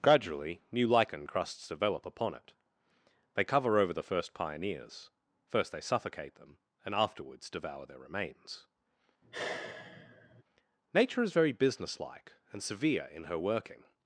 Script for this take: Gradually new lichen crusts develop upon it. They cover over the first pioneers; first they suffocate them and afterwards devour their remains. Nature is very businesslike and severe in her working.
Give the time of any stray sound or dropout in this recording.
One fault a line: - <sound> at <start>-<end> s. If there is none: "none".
- sigh at 9.2-10.4 s